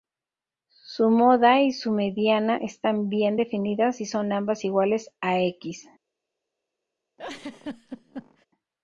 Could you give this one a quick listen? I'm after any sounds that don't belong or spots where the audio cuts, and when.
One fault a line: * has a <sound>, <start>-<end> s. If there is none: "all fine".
* has a laugh, 7.2-8.5 s